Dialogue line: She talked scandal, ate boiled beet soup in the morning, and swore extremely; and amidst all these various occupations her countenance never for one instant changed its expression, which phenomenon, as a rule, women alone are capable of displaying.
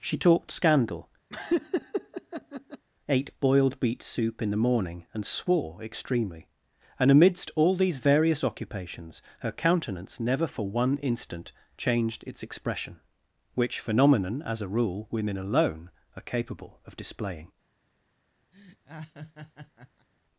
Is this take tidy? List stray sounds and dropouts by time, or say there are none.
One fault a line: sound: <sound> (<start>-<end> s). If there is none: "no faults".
sound: laugh (1.3-2.9 s)
sound: laugh (18.5-20.1 s)